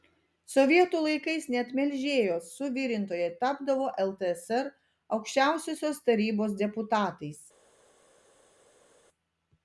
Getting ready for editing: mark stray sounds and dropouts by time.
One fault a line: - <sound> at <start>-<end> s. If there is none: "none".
none